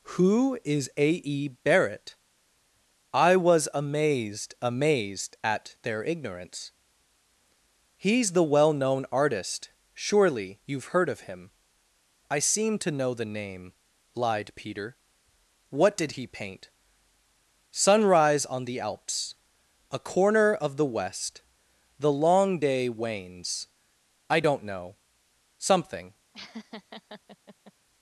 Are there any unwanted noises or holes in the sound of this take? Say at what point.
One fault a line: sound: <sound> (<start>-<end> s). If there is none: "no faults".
sound: laugh (26.3-27.7 s)